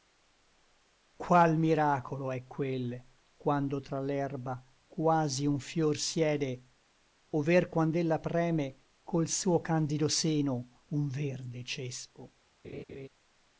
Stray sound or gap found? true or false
true